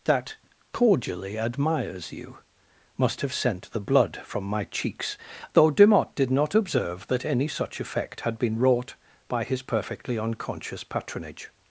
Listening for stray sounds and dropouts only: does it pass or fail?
pass